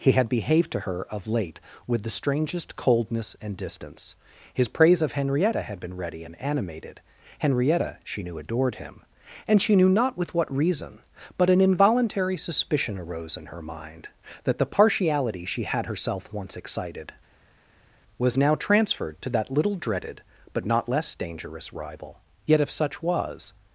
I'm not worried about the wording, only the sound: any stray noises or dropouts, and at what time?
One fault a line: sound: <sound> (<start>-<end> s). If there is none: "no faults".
no faults